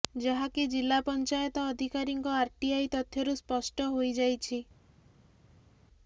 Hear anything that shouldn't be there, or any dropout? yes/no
no